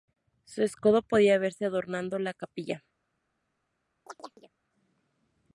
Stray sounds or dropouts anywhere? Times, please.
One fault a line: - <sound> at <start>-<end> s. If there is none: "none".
- chirp at 4.1-4.5 s